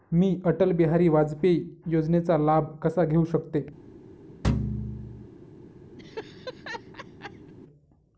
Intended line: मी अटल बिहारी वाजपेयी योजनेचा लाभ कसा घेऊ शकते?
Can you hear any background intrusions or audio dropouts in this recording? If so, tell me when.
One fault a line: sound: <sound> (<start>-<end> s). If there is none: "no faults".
sound: thud (4.4-5.3 s)
sound: laugh (6.0-7.5 s)